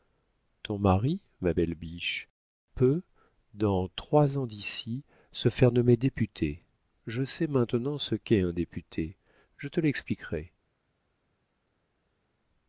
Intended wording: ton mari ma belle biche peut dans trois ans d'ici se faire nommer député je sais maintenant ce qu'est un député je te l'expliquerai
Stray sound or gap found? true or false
false